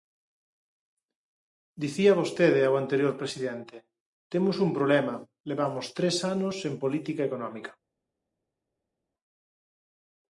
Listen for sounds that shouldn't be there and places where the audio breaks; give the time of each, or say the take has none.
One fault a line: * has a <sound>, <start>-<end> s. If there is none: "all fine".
all fine